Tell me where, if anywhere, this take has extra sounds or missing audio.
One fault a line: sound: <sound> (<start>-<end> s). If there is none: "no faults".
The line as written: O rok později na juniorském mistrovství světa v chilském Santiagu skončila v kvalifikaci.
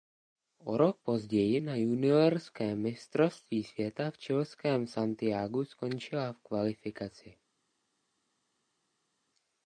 no faults